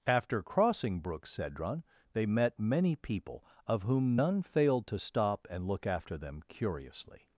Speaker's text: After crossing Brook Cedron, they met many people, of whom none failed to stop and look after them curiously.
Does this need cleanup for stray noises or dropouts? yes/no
no